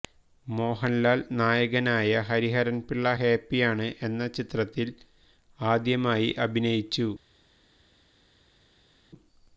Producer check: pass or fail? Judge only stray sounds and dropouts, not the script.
pass